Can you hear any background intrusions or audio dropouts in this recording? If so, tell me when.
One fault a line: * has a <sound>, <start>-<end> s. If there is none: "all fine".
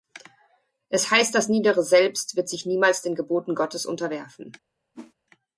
* has a whoosh, 4.9-5.1 s